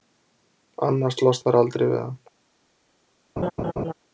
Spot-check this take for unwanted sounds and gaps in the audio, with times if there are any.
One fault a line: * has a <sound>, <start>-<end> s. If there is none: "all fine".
* has a laugh, 3.4-3.9 s